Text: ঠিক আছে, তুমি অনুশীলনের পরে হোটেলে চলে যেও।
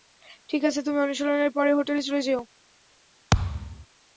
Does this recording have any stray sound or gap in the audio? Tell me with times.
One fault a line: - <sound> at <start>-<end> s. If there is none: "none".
- thud at 3.3-3.9 s